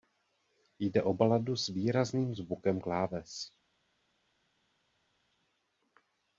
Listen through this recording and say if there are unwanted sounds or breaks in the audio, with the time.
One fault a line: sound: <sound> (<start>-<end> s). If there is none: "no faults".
no faults